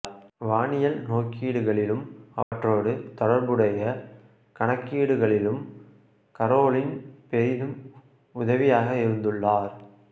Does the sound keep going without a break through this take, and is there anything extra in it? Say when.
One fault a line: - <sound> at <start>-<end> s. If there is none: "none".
- dropout at 2.4-2.5 s